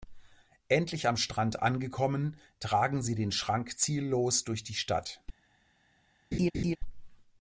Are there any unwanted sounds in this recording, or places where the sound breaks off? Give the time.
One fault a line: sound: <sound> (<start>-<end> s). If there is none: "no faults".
sound: laugh (6.3-6.8 s)